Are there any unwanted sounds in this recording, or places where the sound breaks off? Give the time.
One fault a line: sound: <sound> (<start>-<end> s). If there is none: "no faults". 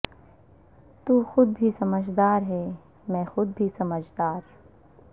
no faults